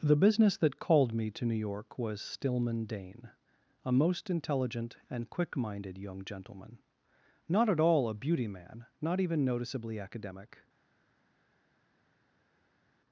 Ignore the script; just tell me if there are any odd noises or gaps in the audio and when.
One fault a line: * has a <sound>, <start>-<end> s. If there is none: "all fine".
all fine